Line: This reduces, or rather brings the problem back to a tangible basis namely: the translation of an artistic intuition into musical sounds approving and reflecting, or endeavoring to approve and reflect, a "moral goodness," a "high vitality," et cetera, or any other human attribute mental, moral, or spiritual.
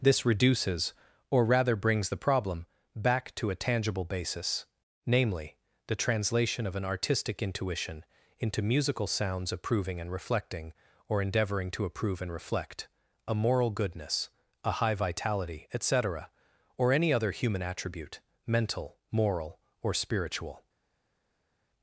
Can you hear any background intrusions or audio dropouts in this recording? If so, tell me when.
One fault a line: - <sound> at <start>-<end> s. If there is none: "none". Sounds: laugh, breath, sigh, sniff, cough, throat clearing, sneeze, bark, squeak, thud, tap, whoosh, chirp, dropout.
none